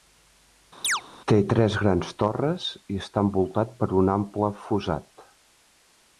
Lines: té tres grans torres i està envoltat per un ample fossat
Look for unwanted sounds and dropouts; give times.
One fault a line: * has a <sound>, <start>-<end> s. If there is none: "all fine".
* has a chirp, 0.8-1.0 s